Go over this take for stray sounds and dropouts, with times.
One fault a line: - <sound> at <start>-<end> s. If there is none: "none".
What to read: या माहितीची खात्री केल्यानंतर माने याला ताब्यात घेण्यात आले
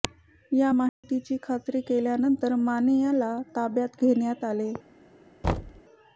- dropout at 0.9-1.0 s
- thud at 5.4-5.8 s